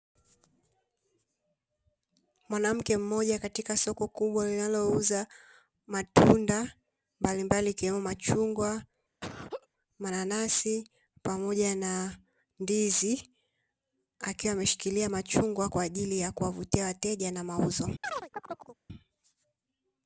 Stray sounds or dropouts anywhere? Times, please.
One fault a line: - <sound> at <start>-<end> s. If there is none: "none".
- laugh at 9.2-9.7 s
- chirp at 18.0-18.8 s